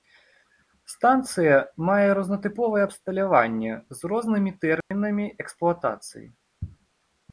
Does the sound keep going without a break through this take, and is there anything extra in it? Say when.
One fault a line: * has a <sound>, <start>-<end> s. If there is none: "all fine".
* has a dropout, 4.8-4.9 s